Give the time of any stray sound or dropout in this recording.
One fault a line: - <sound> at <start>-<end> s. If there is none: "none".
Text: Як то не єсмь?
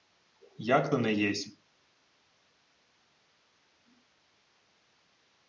none